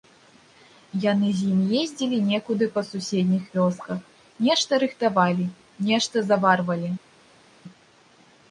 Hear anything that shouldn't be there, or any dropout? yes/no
no